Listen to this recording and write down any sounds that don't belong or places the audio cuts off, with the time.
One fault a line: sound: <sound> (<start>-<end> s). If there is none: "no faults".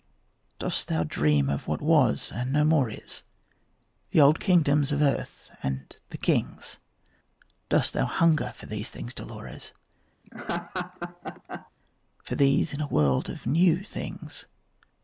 sound: laugh (10.2-11.7 s)